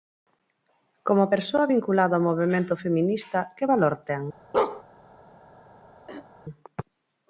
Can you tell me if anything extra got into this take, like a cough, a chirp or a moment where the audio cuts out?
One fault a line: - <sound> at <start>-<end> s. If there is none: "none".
- bark at 4.5-4.8 s
- throat clearing at 6.1-6.3 s